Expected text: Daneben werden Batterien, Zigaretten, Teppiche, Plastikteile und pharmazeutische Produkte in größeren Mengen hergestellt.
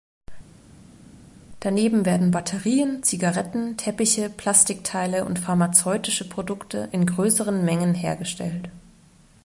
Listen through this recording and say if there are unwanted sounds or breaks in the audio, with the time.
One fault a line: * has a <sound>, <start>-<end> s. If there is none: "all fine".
all fine